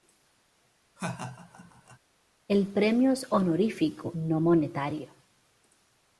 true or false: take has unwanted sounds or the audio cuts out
true